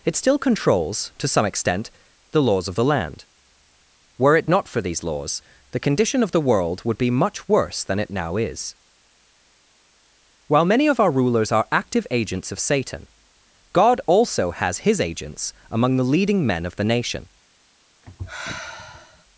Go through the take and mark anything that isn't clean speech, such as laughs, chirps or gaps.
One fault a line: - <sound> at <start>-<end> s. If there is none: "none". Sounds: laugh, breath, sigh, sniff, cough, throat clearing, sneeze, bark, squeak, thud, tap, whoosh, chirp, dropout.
- sigh at 18.0-19.3 s